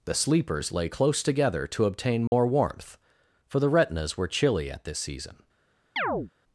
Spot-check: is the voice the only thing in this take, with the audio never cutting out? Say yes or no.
no